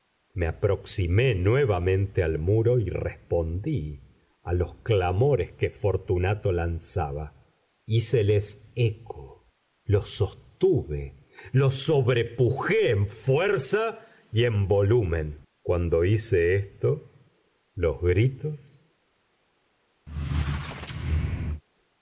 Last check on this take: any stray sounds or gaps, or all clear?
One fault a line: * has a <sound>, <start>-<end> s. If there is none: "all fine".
* has a squeak, 20.1-21.6 s